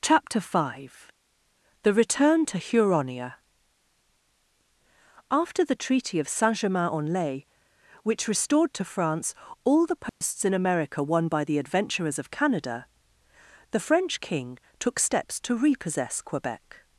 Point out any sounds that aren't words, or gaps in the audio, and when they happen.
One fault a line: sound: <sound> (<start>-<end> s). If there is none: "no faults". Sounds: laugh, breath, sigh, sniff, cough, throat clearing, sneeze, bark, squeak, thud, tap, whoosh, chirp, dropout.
sound: dropout (10.1-10.2 s)